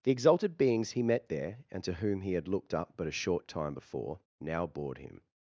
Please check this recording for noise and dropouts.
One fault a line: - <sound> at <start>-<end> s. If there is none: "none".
none